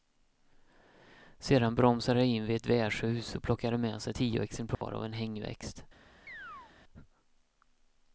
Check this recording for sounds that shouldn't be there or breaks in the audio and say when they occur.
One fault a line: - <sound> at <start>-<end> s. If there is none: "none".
- dropout at 4.7-4.8 s
- chirp at 6.3-6.7 s